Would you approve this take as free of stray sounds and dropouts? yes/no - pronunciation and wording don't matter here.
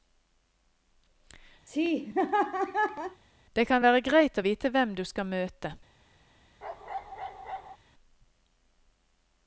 no